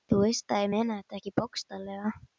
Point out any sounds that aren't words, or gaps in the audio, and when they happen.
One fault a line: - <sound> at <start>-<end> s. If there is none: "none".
none